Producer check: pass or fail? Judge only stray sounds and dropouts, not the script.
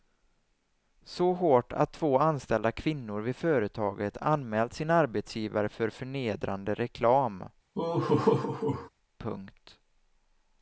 fail